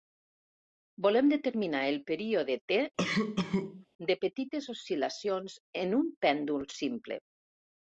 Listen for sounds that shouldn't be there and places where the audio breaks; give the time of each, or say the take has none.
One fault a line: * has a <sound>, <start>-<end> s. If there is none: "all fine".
* has a cough, 3.0-3.9 s